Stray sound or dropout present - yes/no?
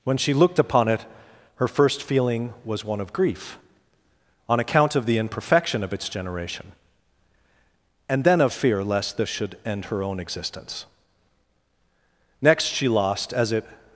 no